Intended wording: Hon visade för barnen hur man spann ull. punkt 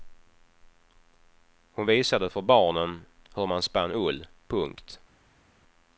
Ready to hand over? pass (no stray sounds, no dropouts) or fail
pass